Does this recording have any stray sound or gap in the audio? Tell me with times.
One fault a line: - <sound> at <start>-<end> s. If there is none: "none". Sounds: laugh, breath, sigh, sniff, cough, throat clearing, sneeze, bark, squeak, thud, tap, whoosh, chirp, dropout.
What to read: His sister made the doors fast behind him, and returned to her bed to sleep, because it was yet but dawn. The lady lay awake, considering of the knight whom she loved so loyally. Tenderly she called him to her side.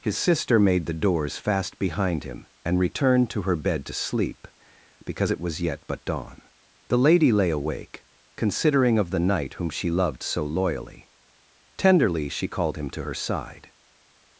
none